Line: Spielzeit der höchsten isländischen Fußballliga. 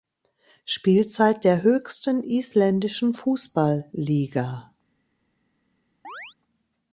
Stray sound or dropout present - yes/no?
yes